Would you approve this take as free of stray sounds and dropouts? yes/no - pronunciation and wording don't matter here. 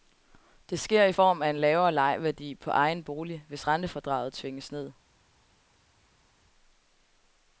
yes